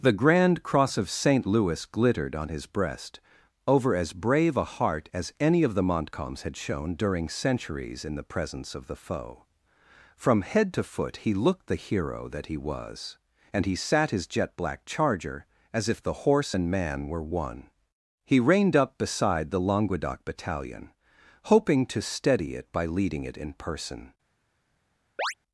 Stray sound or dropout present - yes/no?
yes